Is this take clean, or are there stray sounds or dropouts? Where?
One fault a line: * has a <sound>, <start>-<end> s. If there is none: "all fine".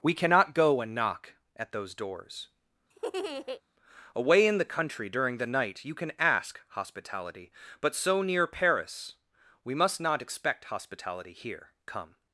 * has a laugh, 2.9-3.6 s